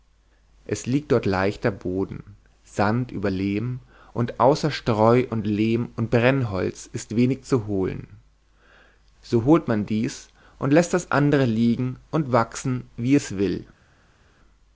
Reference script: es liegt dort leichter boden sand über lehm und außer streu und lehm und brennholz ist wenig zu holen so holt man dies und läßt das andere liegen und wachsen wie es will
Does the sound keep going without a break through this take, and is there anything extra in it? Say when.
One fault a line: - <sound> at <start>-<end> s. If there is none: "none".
none